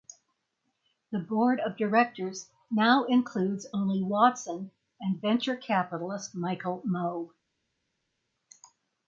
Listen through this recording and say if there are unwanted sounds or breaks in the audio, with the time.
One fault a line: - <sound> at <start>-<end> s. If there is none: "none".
none